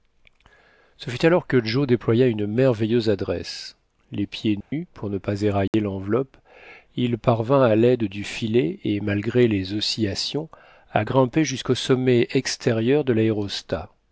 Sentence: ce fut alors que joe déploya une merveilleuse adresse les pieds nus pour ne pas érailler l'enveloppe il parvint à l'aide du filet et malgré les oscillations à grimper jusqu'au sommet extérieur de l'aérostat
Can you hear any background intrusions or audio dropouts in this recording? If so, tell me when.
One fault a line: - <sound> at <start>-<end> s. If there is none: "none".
- dropout at 4.6-4.7 s
- dropout at 5.7-5.7 s